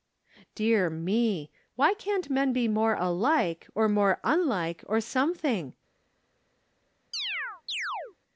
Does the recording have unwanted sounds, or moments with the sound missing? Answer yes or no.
yes